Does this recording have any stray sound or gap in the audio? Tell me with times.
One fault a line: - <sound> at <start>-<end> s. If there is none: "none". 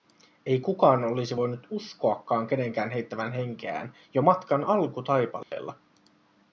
- dropout at 5.4-5.5 s